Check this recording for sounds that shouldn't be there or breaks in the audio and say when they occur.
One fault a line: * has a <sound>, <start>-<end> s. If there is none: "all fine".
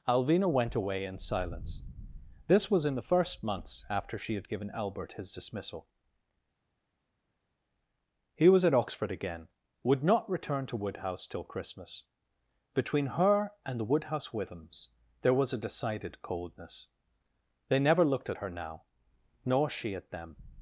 all fine